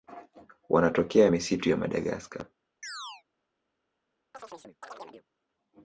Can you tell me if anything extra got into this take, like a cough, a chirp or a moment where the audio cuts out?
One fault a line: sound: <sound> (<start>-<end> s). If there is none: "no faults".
sound: chirp (2.8-3.2 s)
sound: chirp (4.3-5.3 s)